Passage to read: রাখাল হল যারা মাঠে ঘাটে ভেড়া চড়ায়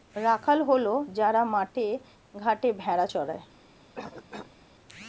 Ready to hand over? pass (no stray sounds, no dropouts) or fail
fail